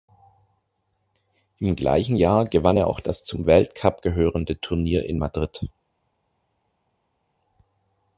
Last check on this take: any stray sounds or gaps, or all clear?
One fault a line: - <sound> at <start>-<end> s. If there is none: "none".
none